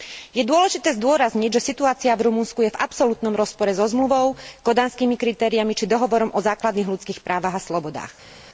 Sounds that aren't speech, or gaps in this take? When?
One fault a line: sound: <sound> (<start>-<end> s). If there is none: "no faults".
no faults